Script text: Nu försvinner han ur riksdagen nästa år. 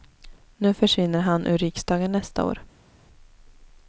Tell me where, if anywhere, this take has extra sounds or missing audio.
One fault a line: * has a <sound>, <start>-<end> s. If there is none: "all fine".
all fine